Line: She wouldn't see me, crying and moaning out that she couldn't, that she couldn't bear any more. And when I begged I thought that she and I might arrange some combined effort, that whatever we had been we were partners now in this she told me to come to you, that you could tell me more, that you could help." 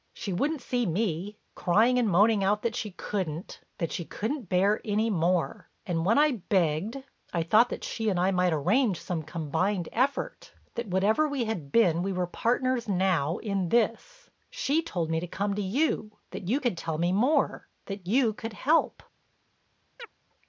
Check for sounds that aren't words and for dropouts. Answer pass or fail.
fail